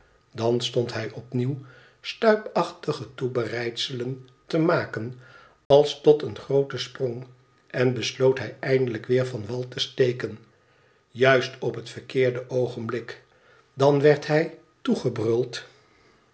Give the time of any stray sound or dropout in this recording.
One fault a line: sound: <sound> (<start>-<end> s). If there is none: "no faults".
sound: dropout (5.7-5.7 s)